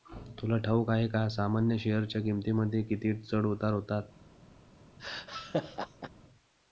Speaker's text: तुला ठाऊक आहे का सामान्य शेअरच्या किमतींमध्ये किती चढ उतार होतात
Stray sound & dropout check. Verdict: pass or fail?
fail